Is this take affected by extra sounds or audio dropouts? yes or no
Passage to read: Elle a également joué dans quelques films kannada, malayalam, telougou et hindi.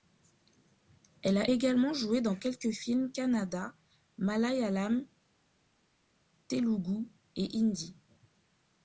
no